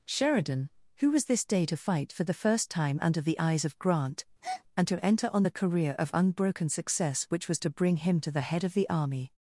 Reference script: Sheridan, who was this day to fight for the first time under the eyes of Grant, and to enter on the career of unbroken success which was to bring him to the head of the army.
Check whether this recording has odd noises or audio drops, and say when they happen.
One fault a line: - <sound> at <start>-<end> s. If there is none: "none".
- breath at 4.4-4.6 s